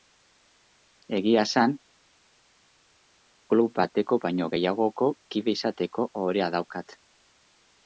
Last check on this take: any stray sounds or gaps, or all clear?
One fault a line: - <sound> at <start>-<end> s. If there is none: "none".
none